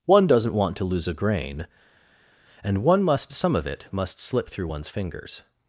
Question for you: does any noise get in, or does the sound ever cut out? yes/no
no